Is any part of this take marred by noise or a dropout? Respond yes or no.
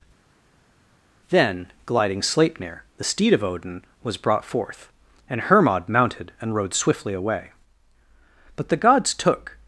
no